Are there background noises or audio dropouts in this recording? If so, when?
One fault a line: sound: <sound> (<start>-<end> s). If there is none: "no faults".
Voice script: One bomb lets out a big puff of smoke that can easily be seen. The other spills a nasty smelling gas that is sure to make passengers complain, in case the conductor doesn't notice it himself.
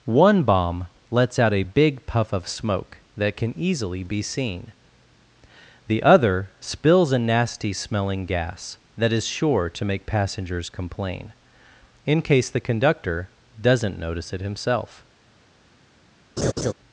sound: laugh (16.4-16.7 s)